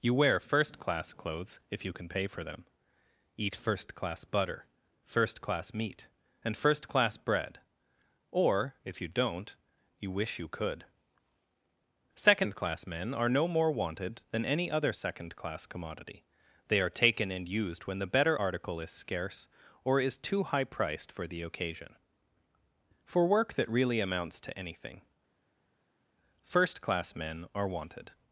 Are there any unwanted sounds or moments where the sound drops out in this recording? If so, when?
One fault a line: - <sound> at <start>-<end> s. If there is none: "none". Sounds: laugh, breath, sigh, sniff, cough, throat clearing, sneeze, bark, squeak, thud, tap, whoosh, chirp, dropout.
none